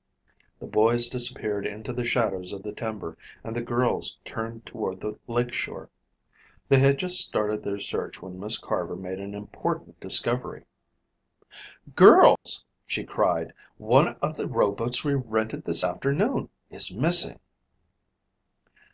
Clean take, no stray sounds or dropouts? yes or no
no